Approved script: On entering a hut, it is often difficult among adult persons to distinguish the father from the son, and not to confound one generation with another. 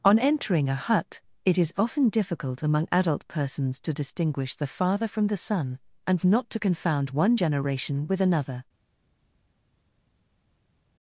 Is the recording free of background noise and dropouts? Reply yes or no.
yes